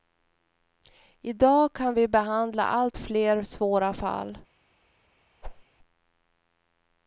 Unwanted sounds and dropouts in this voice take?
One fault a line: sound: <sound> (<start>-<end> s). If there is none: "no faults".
sound: whoosh (5.4-5.6 s)